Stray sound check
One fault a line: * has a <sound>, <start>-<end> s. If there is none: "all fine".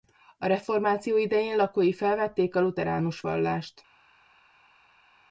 all fine